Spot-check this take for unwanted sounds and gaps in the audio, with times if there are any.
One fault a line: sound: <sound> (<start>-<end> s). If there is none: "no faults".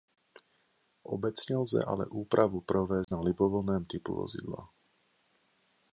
sound: dropout (3.0-3.1 s)